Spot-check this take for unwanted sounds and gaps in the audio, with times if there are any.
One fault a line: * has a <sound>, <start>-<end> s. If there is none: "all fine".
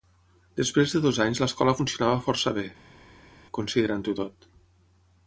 all fine